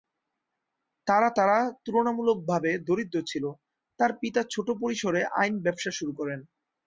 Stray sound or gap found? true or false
false